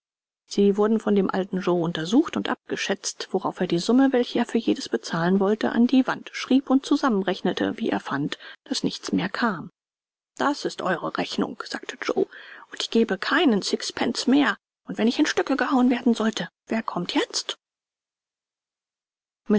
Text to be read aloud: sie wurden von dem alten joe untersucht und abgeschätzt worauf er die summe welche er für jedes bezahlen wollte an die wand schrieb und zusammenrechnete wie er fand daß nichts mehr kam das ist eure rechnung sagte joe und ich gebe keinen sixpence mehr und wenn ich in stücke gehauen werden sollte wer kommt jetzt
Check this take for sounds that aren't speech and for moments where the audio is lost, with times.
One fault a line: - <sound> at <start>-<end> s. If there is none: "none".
none